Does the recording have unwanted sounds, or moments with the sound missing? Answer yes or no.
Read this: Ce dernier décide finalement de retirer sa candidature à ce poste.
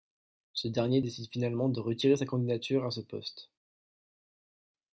no